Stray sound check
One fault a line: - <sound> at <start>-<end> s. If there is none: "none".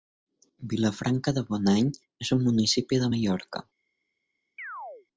- chirp at 4.6-5.1 s